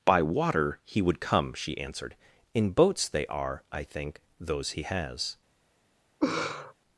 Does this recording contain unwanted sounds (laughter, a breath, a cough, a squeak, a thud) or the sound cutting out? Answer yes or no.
yes